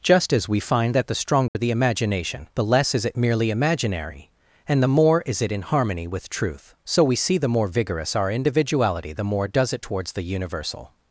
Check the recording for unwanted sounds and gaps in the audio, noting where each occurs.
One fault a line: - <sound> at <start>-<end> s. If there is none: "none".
- dropout at 1.5-1.6 s